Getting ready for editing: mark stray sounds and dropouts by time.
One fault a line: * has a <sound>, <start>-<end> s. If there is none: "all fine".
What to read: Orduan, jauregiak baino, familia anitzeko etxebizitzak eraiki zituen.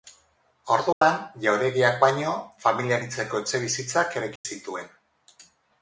* has a dropout, 0.9-1.0 s
* has a dropout, 4.4-4.4 s